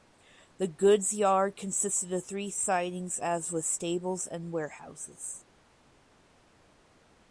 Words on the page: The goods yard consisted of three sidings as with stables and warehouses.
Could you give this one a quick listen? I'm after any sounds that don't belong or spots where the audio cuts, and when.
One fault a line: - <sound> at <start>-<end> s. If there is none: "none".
none